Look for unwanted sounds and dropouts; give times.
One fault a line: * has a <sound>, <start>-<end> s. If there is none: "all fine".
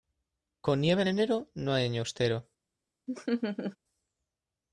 * has a laugh, 3.1-3.8 s